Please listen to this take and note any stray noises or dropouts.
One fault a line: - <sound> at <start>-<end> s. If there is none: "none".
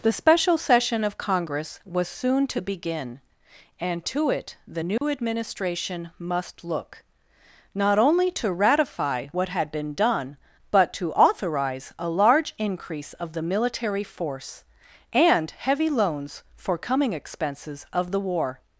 - dropout at 5.0-5.0 s